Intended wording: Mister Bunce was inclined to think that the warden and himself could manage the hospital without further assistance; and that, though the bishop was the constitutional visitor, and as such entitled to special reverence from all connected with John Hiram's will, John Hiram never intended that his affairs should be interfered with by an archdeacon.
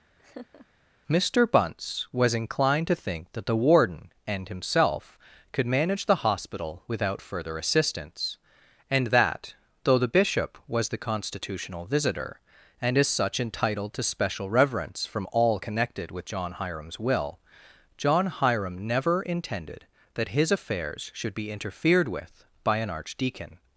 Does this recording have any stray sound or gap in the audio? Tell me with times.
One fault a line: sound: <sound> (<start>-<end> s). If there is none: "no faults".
sound: laugh (0.2-0.7 s)